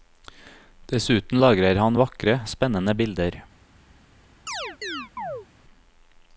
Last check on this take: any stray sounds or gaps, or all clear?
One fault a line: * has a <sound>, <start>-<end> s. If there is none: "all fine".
* has a chirp, 4.5-5.5 s